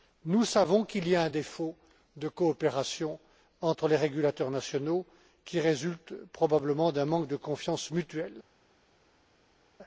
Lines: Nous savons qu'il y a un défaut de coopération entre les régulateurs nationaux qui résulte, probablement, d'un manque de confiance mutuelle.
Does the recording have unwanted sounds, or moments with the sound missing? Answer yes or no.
no